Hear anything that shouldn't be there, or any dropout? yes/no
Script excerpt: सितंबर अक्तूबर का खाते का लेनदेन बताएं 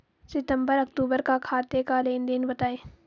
no